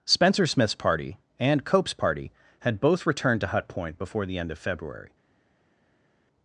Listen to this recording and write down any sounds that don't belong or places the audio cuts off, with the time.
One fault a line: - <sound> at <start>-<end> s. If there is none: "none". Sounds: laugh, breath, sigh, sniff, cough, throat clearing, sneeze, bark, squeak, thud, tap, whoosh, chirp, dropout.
none